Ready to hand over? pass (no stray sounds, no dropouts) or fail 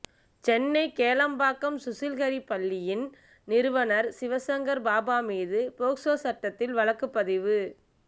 pass